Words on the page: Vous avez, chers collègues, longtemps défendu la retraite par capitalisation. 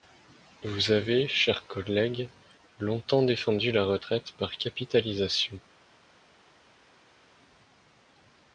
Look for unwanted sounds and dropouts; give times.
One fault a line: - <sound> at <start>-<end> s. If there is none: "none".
none